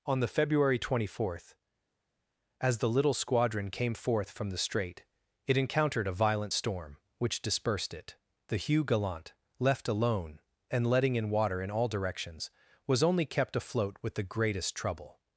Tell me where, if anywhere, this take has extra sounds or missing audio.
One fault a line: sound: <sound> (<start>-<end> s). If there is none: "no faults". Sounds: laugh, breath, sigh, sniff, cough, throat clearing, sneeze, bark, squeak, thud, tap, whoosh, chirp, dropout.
no faults